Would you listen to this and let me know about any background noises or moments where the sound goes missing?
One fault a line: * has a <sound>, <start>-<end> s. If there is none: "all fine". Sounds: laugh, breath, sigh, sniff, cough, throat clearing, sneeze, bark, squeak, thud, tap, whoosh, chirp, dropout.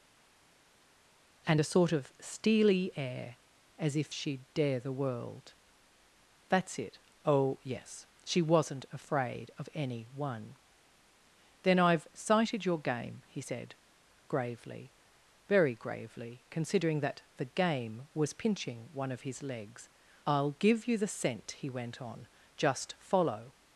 all fine